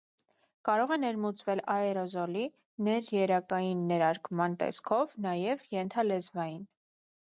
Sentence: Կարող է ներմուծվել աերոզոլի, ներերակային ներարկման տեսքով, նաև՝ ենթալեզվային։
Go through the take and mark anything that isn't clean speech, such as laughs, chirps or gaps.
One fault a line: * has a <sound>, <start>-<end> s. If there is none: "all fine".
all fine